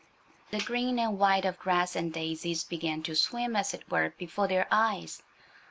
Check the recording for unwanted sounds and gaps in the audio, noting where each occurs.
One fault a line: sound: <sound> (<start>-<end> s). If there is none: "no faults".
no faults